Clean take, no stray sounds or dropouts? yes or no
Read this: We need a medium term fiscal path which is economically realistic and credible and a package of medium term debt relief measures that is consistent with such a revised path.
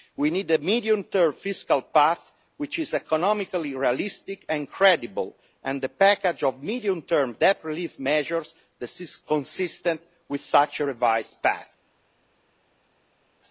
yes